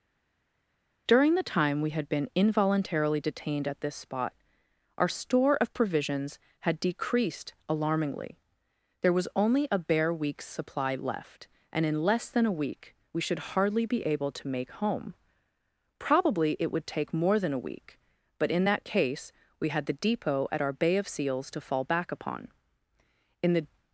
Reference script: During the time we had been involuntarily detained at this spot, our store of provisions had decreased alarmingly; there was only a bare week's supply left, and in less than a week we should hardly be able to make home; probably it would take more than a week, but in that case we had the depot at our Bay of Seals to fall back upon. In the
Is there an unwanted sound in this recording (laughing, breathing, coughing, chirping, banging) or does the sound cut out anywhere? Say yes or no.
no